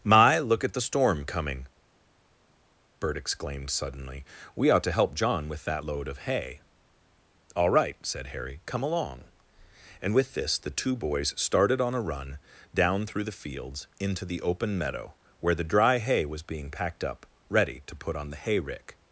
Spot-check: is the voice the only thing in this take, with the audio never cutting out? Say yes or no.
yes